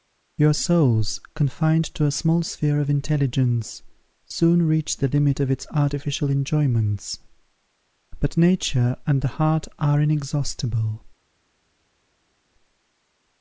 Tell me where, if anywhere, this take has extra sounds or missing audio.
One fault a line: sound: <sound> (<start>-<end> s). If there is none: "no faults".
no faults